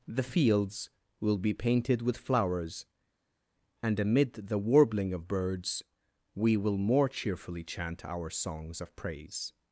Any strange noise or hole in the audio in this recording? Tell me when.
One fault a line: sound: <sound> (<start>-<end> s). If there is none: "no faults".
no faults